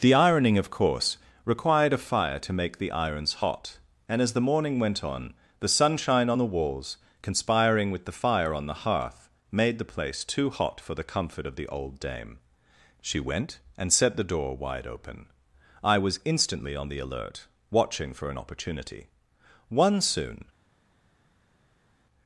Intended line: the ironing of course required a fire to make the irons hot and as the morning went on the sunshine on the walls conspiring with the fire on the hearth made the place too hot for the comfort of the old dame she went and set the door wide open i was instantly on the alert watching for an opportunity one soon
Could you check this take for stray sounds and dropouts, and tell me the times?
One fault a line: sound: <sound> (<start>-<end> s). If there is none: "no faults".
no faults